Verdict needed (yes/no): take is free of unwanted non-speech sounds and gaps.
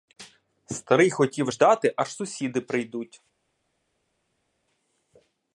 yes